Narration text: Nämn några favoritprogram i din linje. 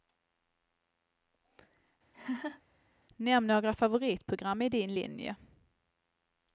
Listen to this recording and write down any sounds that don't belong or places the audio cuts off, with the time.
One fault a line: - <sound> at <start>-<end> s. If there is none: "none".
- laugh at 2.1-2.6 s